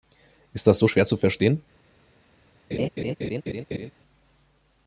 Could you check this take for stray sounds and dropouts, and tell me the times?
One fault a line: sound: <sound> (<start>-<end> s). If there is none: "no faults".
sound: laugh (2.7-3.9 s)